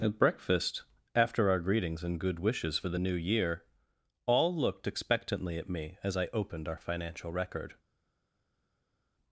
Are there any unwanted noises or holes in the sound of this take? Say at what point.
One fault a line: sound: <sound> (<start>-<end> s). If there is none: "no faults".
no faults